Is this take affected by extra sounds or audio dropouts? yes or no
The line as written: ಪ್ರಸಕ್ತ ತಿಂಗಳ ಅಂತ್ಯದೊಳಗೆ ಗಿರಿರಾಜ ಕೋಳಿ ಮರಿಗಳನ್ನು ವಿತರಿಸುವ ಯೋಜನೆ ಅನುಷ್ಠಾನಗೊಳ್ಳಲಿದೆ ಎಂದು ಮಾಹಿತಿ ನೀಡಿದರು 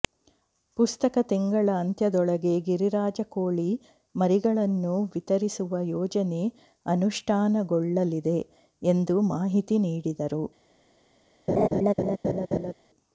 yes